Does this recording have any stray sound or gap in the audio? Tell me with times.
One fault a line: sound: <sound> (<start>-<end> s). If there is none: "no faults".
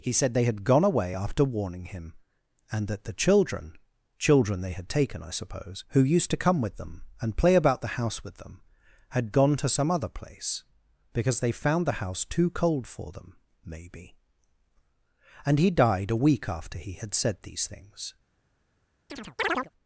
sound: chirp (19.1-19.7 s)